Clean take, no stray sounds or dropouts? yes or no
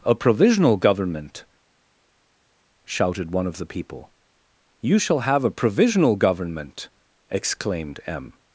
yes